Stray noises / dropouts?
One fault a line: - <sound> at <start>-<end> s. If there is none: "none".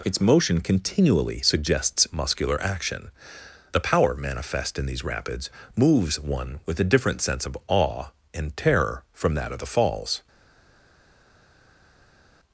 none